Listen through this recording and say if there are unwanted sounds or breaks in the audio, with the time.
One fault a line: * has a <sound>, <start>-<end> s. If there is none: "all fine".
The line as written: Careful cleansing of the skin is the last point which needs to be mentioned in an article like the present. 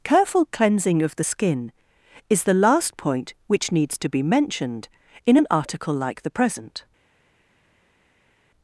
all fine